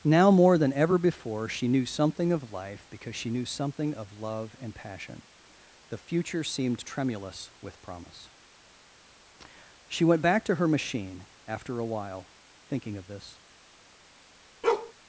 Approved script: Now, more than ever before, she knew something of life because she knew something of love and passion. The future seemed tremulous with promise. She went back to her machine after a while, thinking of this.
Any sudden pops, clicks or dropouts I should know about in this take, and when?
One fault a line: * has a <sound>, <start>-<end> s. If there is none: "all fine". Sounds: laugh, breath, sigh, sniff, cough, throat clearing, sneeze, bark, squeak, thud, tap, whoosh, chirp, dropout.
* has a bark, 14.6-14.9 s